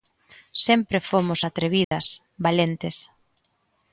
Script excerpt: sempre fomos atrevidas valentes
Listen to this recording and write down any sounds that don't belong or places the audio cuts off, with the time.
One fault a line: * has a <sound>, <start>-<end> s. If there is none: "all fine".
* has a dropout, 1.8-1.9 s